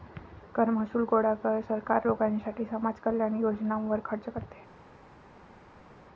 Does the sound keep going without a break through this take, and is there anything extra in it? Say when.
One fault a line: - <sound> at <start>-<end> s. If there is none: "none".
none